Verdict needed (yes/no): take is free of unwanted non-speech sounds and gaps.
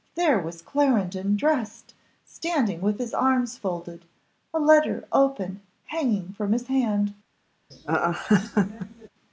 no